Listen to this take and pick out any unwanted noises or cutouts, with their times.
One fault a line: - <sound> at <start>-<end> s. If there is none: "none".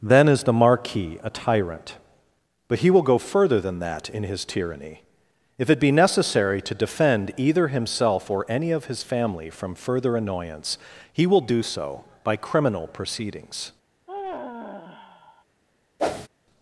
- sigh at 14.1-15.4 s
- whoosh at 16.0-16.3 s